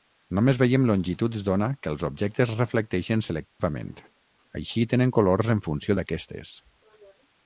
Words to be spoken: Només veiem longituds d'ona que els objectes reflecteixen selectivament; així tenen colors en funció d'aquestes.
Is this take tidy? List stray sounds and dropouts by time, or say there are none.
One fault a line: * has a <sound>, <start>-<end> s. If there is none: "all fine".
* has a dropout, 3.5-3.6 s